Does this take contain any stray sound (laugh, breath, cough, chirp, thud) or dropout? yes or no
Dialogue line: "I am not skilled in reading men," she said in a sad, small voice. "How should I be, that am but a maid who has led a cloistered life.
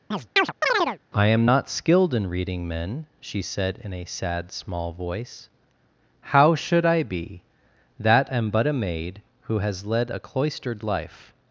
yes